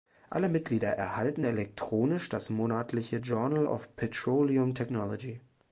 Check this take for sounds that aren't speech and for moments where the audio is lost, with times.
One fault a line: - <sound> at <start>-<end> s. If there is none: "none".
none